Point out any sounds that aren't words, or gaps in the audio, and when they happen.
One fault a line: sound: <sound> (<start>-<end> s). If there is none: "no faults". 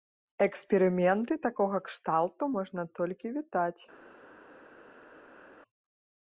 no faults